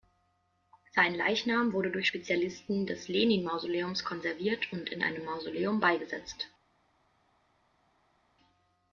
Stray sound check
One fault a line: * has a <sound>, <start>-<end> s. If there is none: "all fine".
all fine